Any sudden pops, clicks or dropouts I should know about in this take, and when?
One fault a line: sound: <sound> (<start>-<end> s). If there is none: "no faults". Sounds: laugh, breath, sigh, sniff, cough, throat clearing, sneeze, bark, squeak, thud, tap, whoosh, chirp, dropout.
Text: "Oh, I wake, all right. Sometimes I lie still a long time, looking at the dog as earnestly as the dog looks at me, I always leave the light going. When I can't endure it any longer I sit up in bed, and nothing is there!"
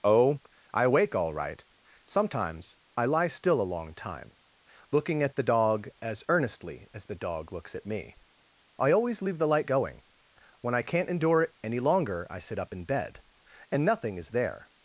no faults